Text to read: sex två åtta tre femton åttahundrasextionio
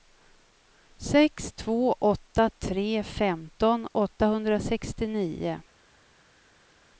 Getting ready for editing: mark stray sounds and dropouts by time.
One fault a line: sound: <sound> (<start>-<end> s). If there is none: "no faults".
no faults